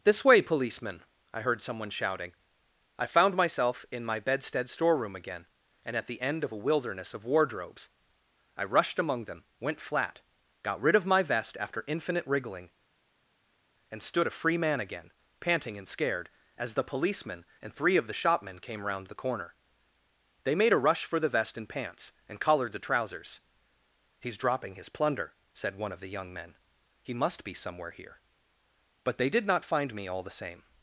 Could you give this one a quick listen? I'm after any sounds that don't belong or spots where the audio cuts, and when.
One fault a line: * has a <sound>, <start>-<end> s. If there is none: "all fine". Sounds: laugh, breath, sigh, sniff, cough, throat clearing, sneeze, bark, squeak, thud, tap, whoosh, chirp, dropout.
all fine